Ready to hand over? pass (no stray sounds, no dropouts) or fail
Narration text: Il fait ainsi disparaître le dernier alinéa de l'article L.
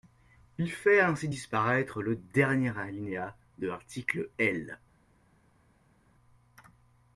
pass